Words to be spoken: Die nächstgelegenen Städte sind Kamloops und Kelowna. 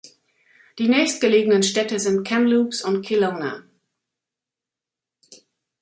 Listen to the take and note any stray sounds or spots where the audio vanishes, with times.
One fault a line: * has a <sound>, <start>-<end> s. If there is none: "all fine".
all fine